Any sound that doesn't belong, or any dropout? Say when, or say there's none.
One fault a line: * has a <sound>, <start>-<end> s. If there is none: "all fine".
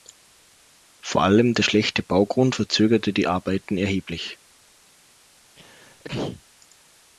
* has a sneeze, 5.6-6.4 s